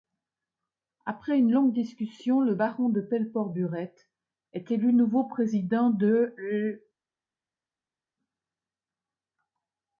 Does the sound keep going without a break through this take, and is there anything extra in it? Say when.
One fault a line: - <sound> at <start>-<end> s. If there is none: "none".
none